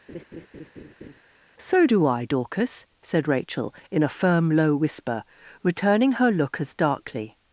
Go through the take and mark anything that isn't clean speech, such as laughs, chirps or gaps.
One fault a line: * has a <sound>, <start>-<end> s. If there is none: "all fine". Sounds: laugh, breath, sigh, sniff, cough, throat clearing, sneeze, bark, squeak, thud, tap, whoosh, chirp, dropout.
* has a laugh, 0.1-1.2 s